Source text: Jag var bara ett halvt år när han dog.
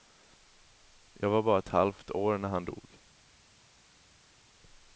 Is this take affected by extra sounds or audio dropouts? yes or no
no